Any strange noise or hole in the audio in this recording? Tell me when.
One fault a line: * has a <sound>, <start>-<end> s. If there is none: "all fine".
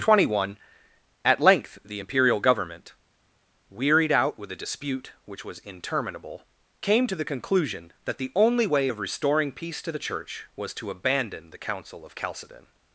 all fine